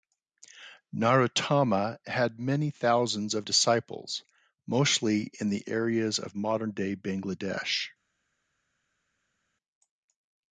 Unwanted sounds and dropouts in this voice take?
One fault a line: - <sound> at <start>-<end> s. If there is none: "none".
none